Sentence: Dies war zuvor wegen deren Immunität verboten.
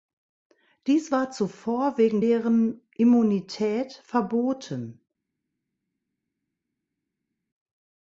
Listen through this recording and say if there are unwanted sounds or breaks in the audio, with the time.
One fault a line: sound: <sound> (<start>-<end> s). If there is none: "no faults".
no faults